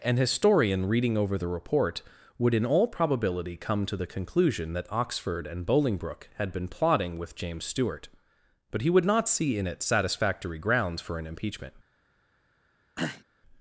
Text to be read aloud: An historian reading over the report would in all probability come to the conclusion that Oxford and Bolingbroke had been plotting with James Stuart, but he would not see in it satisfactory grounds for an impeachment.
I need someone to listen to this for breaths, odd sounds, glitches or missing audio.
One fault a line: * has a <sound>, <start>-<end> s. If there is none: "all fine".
* has a throat clearing, 13.0-13.2 s